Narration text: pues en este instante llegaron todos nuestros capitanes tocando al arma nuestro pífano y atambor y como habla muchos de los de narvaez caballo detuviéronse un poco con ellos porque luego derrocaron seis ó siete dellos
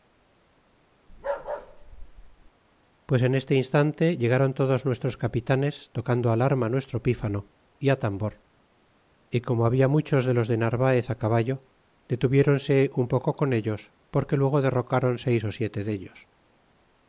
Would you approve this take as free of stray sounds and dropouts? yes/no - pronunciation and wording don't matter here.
no